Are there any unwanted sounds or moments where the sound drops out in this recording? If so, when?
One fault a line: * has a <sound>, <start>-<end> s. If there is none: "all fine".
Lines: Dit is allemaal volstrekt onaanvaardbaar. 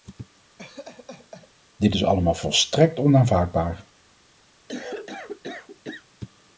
* has a laugh, 0.6-1.5 s
* has a cough, 4.7-6.1 s